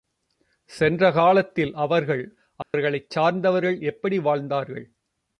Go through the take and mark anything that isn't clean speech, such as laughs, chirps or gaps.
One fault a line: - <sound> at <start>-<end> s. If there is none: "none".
- dropout at 2.6-2.7 s